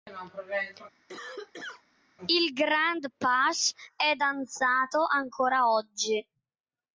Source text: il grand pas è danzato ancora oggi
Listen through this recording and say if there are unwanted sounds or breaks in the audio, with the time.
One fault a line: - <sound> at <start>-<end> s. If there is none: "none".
- cough at 1.1-1.8 s